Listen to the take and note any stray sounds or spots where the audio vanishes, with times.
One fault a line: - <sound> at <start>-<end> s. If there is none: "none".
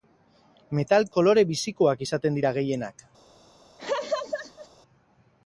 - laugh at 3.8-4.7 s